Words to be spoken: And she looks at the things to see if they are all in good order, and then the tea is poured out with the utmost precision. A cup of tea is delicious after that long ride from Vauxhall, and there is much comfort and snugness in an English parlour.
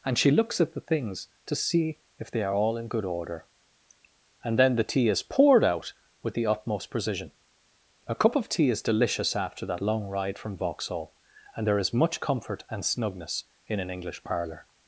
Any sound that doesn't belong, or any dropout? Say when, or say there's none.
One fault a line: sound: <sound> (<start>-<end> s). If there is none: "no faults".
no faults